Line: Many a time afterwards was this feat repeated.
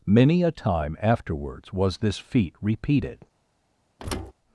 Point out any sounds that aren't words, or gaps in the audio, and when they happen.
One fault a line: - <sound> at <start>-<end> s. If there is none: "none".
- thud at 4.0-4.3 s